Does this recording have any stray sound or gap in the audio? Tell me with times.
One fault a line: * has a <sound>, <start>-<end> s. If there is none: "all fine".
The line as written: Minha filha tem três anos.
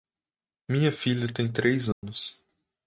* has a dropout, 1.9-2.0 s